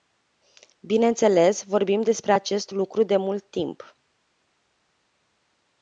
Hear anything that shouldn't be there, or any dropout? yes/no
no